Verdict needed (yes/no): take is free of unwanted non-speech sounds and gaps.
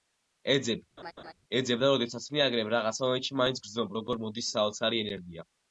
no